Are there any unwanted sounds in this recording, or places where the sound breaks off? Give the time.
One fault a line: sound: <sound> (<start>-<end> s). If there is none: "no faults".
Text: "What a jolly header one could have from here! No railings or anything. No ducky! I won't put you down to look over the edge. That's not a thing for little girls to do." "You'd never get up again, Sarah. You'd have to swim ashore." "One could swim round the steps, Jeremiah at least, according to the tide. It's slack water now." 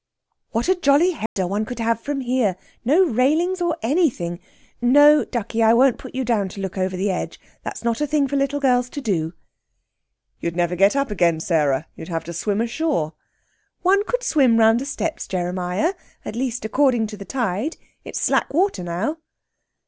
sound: dropout (1.3-1.4 s)